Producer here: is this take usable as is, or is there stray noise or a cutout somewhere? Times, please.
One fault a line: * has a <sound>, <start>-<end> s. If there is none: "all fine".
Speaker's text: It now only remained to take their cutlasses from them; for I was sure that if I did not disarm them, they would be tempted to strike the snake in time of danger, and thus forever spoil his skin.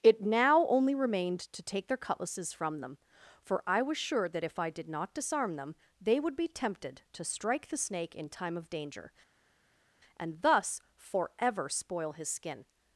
all fine